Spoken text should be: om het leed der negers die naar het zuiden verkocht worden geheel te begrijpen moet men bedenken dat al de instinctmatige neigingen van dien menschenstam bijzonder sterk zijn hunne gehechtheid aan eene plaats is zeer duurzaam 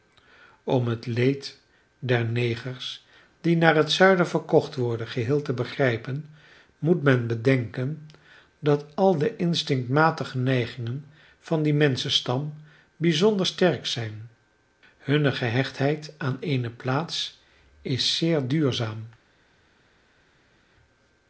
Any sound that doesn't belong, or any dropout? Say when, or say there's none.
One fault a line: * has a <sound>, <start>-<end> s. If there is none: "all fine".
all fine